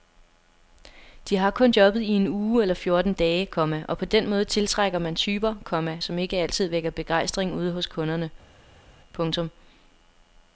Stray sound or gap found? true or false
false